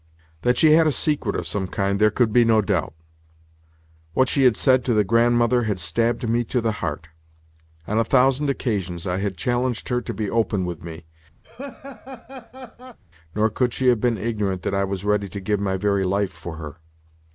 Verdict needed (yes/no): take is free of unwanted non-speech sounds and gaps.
no